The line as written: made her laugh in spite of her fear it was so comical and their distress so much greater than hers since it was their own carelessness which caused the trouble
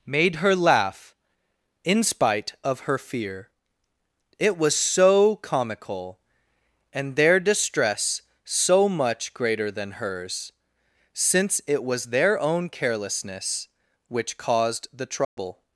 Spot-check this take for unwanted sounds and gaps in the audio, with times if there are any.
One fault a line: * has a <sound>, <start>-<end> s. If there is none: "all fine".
* has a dropout, 15.2-15.4 s